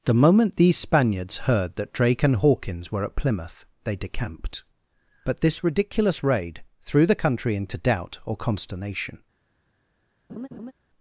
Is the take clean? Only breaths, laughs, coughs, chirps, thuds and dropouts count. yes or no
no